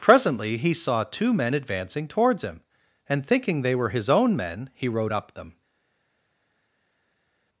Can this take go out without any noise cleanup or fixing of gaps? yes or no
yes